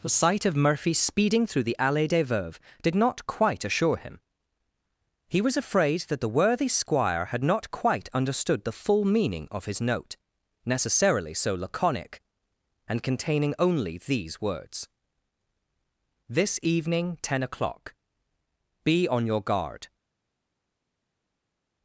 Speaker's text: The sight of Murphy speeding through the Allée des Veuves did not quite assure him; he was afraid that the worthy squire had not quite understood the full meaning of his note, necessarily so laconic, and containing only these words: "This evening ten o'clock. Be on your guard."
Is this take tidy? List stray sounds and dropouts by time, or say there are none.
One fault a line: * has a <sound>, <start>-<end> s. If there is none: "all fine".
all fine